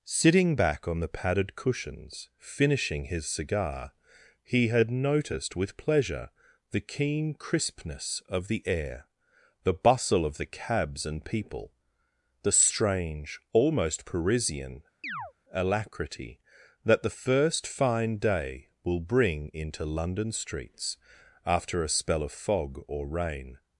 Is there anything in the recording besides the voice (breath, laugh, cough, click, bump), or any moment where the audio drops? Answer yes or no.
yes